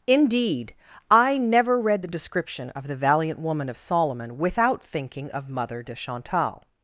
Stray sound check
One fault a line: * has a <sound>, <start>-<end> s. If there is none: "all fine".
all fine